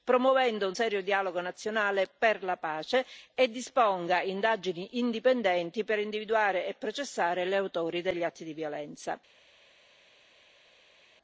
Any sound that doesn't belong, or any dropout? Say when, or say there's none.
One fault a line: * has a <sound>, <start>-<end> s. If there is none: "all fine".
all fine